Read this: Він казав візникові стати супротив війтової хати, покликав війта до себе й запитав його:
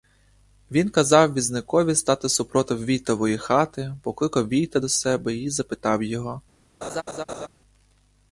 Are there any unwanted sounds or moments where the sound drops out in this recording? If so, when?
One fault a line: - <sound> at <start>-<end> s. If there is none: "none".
- laugh at 6.8-7.5 s